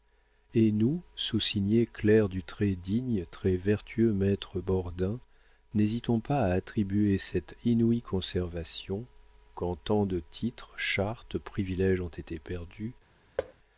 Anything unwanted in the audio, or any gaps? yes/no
yes